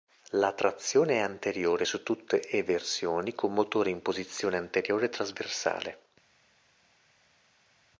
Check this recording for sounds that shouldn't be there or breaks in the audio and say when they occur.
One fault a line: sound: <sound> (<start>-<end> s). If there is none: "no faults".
no faults